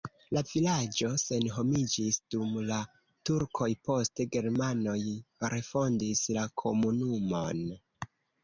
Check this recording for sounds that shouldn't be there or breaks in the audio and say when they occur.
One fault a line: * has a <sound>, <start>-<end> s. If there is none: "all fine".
all fine